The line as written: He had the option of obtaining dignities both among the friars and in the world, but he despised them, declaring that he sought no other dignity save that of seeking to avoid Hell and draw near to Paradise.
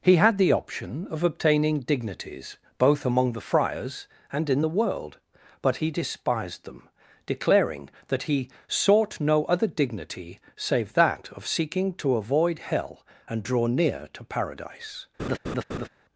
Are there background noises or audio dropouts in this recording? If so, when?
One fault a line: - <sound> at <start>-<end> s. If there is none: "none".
- laugh at 15.2-15.9 s